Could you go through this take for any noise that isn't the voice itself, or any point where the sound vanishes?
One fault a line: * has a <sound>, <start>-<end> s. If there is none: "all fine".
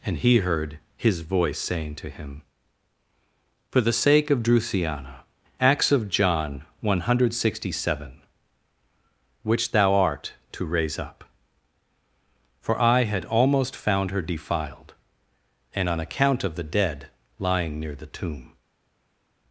all fine